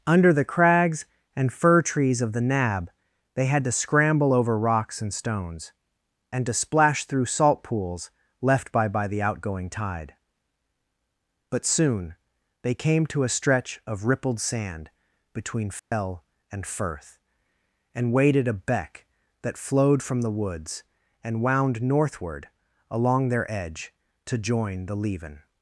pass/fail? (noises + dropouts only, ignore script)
fail